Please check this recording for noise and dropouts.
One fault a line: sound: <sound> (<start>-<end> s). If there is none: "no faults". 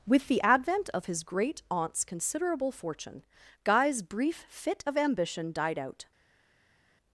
no faults